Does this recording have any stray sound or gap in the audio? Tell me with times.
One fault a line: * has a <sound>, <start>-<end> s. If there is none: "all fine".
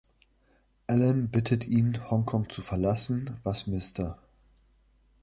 all fine